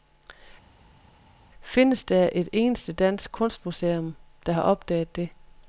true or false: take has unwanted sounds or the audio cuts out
false